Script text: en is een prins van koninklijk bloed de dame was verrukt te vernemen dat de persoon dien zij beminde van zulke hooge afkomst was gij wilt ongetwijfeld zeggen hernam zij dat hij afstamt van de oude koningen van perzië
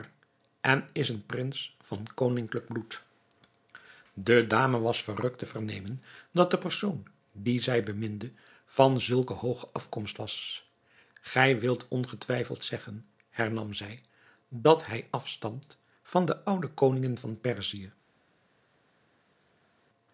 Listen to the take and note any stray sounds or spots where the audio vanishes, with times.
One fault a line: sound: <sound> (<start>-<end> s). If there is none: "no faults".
no faults